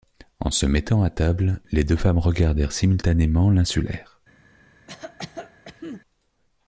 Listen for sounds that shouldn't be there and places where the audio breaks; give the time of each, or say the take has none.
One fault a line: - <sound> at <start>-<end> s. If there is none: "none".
- cough at 4.9-6.0 s